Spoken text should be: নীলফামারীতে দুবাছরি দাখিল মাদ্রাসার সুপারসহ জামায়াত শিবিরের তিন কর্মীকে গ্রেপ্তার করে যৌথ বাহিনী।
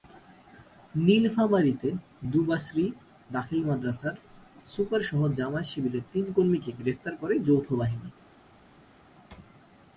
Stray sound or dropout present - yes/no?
no